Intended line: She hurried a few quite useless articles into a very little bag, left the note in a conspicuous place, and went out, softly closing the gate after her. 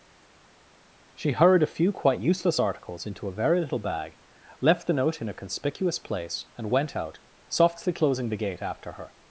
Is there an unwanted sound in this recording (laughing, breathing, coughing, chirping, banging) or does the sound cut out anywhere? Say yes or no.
no